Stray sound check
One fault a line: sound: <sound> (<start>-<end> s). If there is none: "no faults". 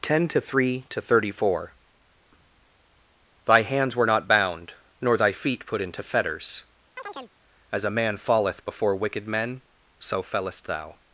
sound: chirp (7.0-7.3 s)